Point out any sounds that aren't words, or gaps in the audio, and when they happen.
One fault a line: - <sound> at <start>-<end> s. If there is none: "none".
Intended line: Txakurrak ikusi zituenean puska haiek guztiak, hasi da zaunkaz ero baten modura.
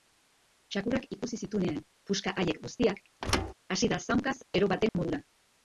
- thud at 3.2-3.5 s
- dropout at 4.9-4.9 s